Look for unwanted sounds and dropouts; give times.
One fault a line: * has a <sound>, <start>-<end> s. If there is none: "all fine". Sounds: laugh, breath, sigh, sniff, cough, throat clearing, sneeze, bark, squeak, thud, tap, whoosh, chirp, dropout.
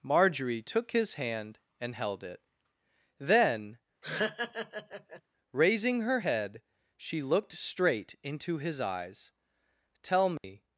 * has a laugh, 4.0-5.2 s
* has a dropout, 10.4-10.4 s